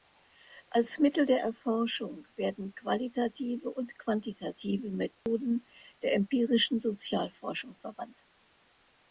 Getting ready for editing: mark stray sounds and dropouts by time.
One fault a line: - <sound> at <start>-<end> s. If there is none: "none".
- dropout at 5.1-5.3 s